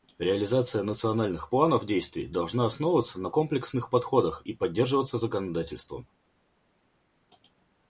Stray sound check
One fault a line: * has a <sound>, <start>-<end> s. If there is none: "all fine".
all fine